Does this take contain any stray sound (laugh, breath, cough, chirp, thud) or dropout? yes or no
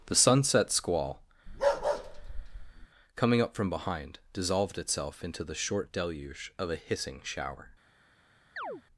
yes